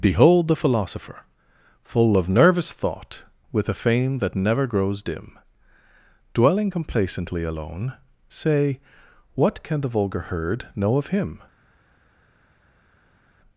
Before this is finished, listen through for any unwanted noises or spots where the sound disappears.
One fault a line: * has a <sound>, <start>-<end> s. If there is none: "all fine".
all fine